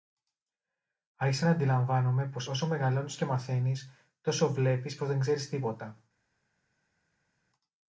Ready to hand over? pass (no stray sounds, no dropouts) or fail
pass